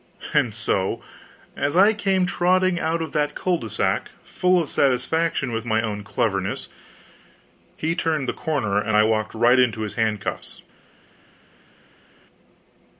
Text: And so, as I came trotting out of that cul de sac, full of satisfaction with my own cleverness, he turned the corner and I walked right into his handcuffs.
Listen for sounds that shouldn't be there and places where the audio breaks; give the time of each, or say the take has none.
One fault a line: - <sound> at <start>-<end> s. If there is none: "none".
none